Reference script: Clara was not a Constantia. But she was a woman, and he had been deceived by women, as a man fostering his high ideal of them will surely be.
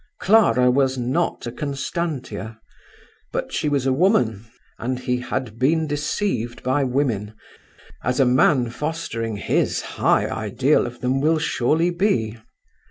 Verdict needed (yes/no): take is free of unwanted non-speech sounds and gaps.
yes